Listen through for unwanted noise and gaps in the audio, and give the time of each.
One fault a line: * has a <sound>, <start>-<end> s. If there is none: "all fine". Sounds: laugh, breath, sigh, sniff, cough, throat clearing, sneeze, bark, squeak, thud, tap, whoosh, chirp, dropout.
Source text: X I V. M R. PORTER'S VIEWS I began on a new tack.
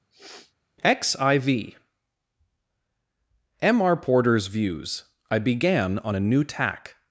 * has a sniff, 0.1-0.5 s